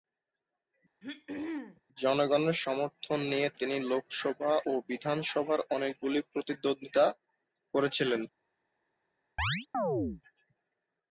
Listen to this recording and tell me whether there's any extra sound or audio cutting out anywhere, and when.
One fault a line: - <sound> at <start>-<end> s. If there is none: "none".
- throat clearing at 1.0-1.8 s
- chirp at 9.4-10.2 s